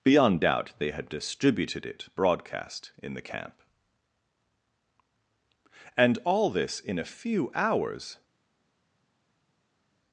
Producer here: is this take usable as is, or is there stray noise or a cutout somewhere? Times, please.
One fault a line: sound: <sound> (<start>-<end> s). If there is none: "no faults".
no faults